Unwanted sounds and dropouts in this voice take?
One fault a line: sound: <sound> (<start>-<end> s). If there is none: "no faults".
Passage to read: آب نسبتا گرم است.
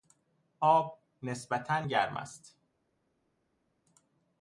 no faults